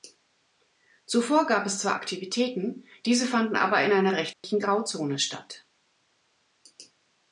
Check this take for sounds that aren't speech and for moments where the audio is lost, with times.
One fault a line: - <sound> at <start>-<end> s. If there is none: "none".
- dropout at 4.3-4.4 s